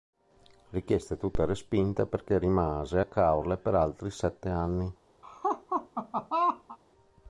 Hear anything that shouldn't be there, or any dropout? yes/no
yes